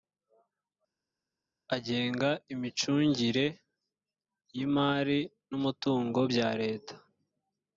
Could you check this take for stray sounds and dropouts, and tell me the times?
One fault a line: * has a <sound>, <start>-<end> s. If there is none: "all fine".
all fine